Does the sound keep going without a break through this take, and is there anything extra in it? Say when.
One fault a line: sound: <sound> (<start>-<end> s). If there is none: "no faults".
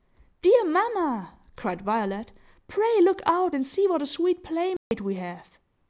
sound: dropout (4.8-4.9 s)